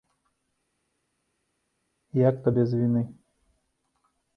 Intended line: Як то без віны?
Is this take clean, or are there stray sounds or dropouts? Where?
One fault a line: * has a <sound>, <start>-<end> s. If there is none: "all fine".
all fine